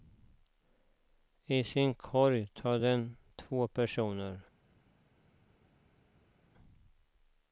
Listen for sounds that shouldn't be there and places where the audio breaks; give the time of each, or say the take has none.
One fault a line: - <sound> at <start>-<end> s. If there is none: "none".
none